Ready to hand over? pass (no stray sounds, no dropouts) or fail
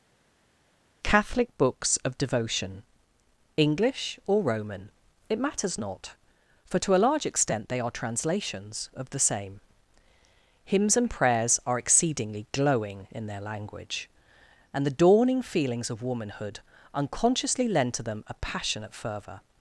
pass